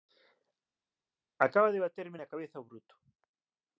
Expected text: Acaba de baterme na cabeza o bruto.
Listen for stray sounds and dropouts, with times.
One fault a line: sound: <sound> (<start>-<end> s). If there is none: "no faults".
no faults